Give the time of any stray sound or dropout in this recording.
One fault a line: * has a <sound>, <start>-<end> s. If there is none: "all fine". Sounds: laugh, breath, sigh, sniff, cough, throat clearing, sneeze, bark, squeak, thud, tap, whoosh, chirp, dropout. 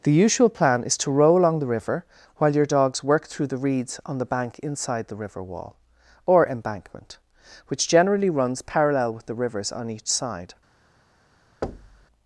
* has a thud, 11.6-12.1 s